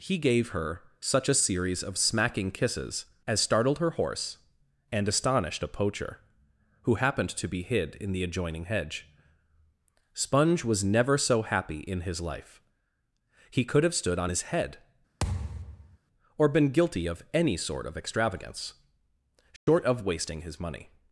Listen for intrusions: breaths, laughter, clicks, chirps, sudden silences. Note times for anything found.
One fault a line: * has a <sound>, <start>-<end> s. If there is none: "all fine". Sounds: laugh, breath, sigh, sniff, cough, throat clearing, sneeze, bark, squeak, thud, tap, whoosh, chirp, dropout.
* has a thud, 15.2-16.0 s
* has a dropout, 19.6-19.7 s